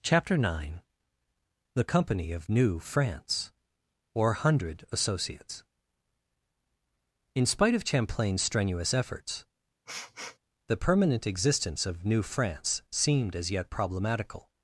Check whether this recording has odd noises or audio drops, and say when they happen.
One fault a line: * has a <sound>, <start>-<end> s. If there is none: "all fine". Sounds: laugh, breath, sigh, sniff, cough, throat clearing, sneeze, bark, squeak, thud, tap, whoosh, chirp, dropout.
* has a sniff, 9.9-10.4 s